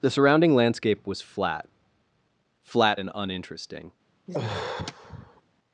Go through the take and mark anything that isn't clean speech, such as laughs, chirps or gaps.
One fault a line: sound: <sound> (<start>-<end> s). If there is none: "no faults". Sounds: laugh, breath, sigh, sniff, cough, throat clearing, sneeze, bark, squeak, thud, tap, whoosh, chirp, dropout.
sound: sigh (4.3-5.4 s)